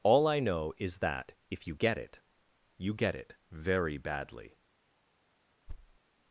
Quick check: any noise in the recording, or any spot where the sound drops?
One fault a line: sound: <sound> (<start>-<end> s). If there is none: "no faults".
sound: thud (5.7-6.0 s)